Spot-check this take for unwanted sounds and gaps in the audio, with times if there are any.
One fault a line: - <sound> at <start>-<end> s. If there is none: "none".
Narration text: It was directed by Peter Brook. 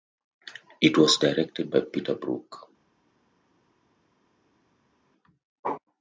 none